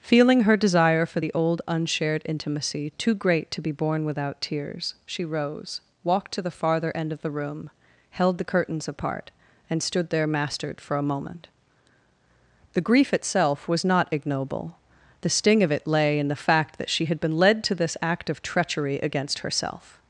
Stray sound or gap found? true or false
false